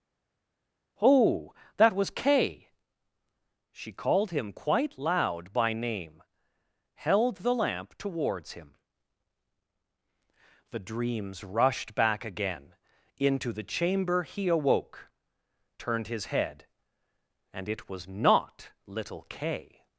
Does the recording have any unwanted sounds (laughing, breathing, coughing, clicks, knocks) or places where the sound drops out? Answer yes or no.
no